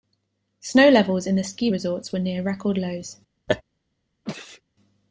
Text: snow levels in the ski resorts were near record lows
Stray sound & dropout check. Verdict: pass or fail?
fail